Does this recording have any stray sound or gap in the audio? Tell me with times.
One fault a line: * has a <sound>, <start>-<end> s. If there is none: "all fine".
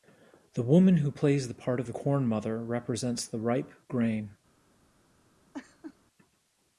* has a laugh, 5.5-6.0 s